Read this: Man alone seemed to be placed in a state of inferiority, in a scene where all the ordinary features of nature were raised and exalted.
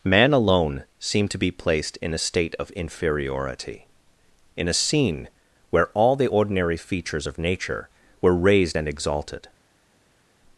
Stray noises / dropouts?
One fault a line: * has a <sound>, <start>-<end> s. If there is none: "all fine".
all fine